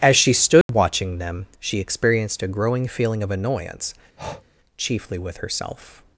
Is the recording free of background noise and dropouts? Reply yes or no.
no